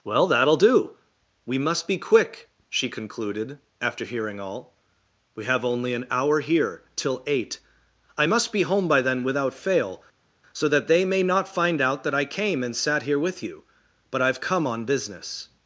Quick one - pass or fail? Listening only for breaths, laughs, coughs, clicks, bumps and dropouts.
pass